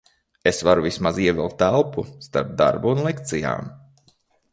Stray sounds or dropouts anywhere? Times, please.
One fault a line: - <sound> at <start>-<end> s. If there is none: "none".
none